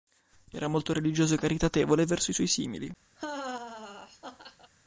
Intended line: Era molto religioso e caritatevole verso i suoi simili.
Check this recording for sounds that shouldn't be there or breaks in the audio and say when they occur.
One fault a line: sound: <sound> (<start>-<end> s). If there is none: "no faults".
sound: laugh (3.2-4.7 s)